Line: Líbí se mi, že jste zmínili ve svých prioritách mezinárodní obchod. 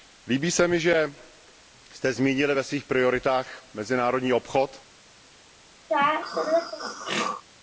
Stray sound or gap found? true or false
true